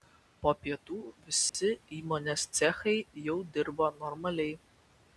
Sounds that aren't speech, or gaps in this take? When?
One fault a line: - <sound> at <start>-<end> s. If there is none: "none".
- dropout at 1.5-1.5 s